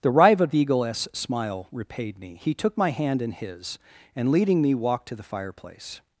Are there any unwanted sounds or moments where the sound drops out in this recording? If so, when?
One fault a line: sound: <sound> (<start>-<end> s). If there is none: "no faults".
no faults